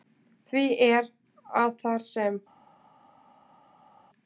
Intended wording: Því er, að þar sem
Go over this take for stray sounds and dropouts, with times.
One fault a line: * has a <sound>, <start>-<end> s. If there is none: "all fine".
all fine